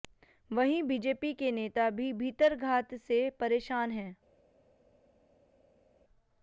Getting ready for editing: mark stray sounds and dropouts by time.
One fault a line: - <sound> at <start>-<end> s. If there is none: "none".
none